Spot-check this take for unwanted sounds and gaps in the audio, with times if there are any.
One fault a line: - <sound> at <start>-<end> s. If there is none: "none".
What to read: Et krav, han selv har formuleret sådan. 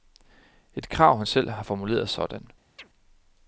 - chirp at 2.8-2.9 s